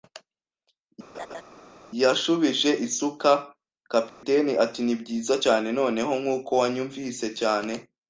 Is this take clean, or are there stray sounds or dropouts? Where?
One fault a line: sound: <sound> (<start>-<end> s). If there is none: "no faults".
sound: laugh (1.1-1.4 s)
sound: dropout (4.1-4.2 s)